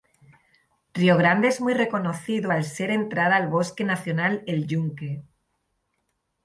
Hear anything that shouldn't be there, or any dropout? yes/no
no